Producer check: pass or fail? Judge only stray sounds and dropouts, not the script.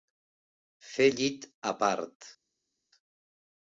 pass